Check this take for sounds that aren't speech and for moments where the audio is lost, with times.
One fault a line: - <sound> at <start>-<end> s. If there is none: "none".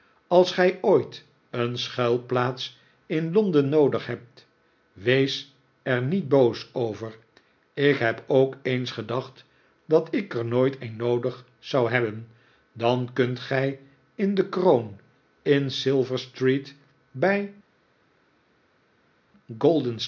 none